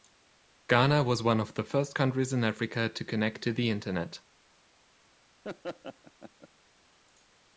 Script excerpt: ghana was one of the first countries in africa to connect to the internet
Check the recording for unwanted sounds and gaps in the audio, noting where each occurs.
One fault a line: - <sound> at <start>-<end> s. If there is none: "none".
- laugh at 5.4-6.5 s